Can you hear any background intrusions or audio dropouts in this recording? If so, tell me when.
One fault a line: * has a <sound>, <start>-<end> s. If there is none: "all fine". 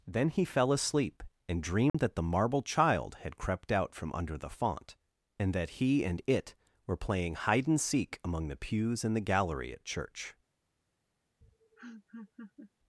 * has a dropout, 1.9-1.9 s
* has a laugh, 11.4-12.7 s